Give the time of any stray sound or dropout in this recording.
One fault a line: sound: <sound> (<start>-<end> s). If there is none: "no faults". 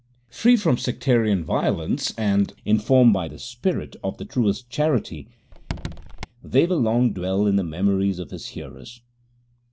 sound: squeak (5.5-6.3 s)